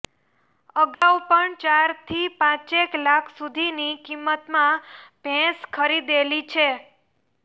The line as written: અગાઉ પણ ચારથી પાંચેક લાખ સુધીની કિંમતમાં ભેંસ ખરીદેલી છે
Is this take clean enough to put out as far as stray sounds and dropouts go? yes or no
no